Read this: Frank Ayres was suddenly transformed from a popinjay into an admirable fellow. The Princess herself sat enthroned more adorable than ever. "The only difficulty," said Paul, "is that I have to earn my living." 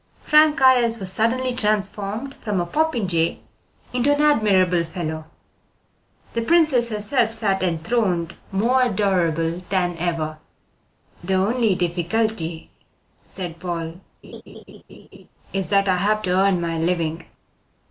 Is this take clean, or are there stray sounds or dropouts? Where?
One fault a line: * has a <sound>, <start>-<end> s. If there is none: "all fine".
* has a laugh, 14.2-15.3 s